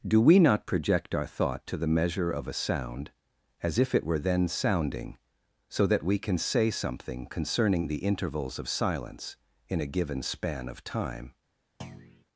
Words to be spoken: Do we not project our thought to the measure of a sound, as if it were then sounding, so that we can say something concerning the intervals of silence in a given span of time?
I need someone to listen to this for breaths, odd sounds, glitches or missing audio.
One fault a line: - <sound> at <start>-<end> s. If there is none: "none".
- thud at 11.8-12.3 s